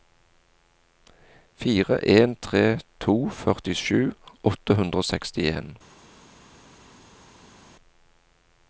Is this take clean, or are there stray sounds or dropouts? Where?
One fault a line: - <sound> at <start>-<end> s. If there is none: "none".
none